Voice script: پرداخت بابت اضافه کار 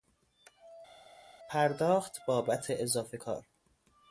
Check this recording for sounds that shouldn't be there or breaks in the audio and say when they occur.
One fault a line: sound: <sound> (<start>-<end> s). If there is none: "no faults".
no faults